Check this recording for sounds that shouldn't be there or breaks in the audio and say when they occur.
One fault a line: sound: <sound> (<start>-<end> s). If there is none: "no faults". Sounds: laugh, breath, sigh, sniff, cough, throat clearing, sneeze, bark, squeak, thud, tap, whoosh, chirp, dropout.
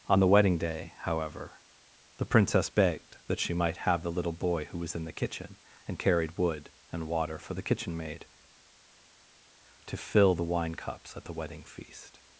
no faults